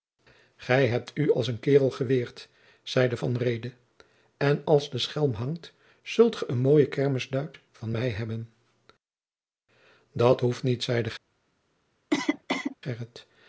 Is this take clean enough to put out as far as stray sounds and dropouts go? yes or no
no